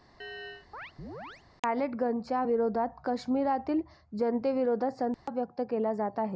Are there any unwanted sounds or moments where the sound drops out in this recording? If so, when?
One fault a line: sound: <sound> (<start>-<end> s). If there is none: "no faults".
sound: chirp (0.2-1.4 s)
sound: dropout (5.1-5.3 s)